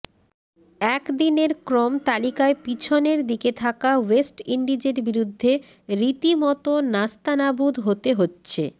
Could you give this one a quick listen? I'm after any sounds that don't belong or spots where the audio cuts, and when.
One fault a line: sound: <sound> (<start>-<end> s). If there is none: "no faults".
no faults